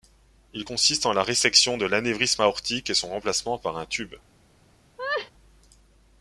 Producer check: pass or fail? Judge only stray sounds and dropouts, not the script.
fail